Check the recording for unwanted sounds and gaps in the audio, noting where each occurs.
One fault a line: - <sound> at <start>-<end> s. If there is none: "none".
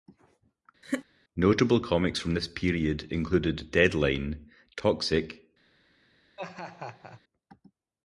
- laugh at 0.8-1.1 s
- laugh at 6.4-7.2 s